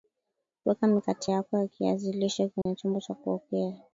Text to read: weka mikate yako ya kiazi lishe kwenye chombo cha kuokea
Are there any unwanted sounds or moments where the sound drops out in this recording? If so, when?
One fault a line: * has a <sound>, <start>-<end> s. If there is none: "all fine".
* has a dropout, 2.6-2.7 s